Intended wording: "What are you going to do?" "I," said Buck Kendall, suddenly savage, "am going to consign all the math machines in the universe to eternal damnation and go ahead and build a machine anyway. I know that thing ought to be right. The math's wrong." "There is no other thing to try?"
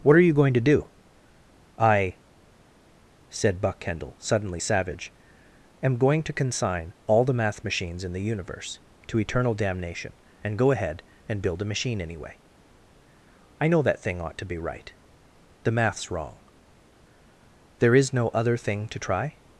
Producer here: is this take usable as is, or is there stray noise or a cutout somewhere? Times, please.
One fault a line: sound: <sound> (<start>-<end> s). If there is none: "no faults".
no faults